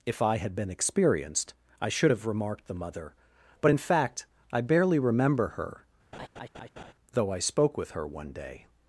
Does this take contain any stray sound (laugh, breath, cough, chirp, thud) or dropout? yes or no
yes